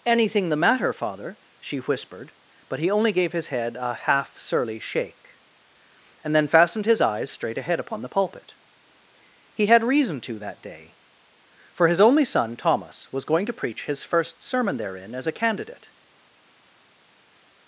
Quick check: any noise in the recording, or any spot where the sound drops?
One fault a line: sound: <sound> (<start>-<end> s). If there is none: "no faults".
no faults